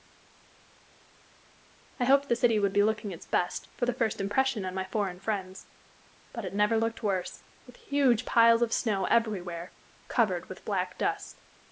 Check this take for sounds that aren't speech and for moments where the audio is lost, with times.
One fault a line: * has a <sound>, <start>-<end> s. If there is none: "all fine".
all fine